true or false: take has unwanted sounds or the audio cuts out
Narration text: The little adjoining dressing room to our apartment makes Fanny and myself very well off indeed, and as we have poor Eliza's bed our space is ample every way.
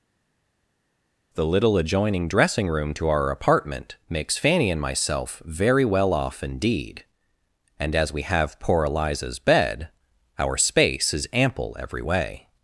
false